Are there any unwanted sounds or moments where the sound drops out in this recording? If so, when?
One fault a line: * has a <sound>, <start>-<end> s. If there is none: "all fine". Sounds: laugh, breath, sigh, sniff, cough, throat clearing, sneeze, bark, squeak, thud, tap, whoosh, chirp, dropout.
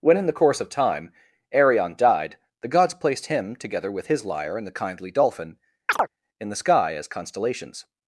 * has a chirp, 5.9-6.1 s